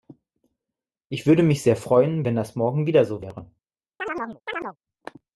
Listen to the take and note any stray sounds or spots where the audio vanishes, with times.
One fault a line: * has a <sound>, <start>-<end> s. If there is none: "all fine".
* has a chirp, 4.0-4.8 s